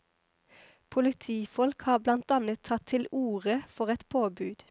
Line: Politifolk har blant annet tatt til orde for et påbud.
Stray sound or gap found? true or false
false